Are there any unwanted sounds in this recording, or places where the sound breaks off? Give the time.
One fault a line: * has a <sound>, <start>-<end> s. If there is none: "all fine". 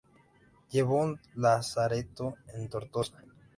all fine